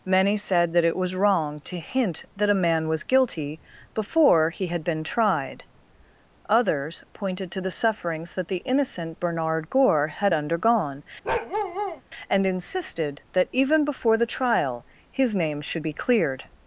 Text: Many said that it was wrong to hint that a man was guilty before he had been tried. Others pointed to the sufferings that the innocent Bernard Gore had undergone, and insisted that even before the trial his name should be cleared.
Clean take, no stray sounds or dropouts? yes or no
no